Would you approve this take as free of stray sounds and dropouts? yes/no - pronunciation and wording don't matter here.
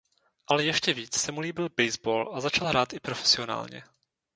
yes